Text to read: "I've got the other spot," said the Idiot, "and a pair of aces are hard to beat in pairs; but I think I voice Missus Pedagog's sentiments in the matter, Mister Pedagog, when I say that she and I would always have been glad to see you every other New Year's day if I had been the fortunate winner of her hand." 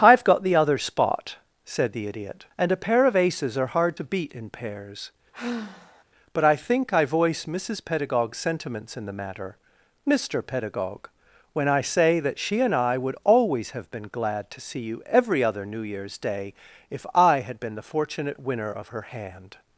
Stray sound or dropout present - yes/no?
yes